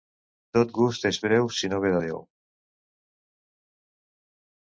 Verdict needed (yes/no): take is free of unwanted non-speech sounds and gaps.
yes